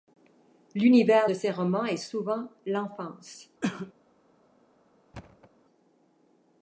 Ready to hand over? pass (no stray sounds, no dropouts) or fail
fail